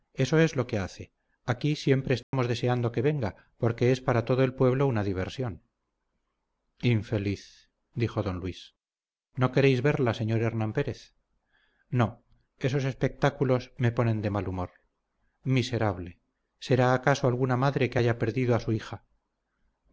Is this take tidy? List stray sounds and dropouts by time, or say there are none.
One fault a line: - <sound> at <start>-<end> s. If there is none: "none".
- dropout at 2.2-2.3 s